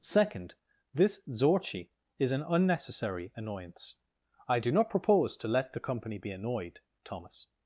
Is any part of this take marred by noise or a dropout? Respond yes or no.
no